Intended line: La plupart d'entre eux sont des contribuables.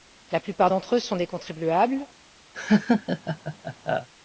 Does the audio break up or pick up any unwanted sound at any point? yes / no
yes